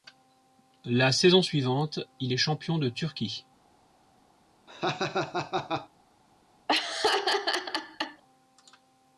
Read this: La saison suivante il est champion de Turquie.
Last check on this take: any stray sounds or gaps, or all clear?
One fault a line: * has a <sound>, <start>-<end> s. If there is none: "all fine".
* has a laugh, 4.7-5.9 s
* has a laugh, 6.7-8.2 s